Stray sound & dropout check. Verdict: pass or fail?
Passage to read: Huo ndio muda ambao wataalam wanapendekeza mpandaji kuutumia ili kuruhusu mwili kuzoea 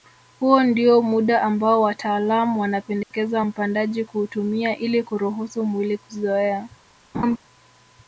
fail